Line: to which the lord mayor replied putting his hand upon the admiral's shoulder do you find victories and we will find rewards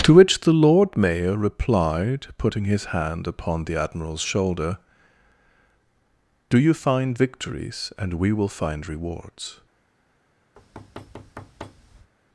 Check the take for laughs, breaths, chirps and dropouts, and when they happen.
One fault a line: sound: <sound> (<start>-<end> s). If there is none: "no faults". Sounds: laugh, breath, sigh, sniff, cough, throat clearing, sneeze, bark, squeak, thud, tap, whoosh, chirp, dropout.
sound: thud (10.6-12.1 s)